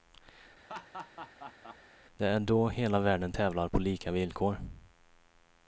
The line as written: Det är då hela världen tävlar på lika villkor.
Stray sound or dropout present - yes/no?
yes